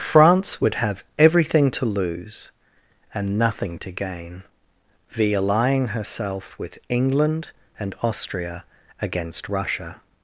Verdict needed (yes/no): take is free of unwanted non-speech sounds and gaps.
yes